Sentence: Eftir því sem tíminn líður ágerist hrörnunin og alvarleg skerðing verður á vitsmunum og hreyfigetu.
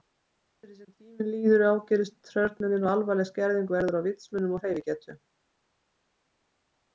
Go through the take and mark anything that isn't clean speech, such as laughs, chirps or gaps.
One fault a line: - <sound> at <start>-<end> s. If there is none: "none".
none